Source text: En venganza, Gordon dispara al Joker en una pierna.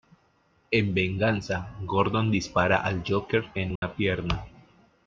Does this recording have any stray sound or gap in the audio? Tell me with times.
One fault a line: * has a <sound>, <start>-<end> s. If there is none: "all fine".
* has a dropout, 3.8-3.8 s